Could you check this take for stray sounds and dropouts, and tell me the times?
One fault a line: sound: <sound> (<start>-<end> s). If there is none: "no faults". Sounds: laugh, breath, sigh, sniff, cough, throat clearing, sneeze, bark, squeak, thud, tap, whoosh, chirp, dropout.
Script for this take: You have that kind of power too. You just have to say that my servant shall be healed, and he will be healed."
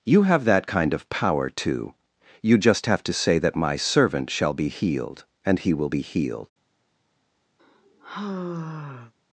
sound: sigh (7.6-9.1 s)